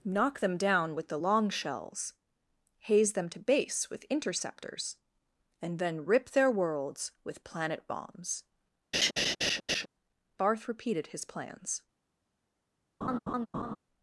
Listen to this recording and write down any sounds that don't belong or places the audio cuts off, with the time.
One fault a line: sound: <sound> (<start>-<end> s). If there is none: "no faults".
sound: laugh (8.9-9.9 s)
sound: laugh (13.0-13.8 s)